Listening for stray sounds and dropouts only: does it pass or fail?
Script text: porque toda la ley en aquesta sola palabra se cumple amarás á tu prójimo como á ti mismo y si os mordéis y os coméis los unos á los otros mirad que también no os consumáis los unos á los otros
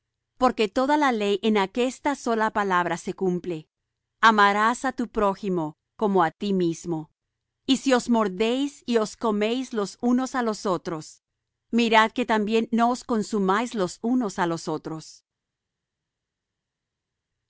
pass